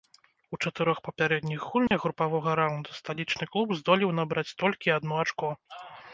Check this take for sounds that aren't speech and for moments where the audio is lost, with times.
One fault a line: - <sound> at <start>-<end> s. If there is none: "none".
- dropout at 1.9-1.9 s